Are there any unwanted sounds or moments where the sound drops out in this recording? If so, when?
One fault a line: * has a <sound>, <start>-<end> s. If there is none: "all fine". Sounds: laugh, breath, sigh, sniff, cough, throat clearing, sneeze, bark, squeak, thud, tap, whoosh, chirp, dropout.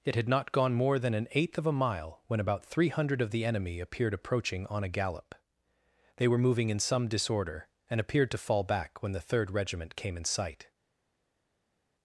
all fine